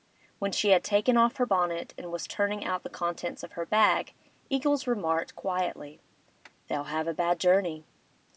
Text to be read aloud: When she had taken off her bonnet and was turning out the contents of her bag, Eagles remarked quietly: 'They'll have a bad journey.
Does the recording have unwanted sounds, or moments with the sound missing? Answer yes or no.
no